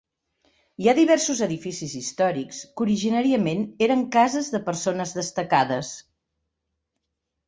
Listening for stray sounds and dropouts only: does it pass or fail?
pass